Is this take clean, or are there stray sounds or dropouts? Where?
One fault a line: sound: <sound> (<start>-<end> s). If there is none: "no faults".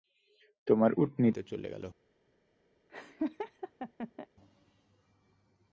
sound: laugh (2.9-4.3 s)